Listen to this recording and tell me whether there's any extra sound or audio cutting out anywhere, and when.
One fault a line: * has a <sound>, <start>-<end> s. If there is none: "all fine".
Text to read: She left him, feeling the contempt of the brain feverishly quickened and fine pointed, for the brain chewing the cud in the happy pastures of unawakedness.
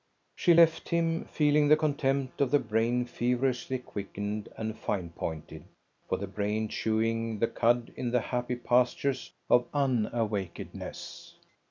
all fine